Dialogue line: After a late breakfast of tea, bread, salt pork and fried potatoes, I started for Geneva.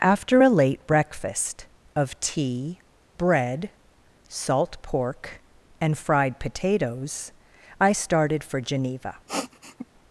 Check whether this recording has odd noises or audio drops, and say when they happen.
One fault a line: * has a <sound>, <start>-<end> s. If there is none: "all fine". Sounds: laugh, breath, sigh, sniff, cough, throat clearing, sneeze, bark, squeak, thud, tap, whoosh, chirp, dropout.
* has a sniff, 9.3-9.9 s